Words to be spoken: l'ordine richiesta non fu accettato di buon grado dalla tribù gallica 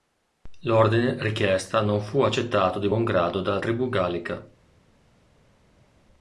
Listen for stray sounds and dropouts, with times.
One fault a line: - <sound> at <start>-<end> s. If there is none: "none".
none